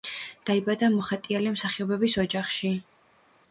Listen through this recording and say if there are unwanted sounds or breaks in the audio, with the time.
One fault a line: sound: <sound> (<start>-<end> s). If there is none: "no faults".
no faults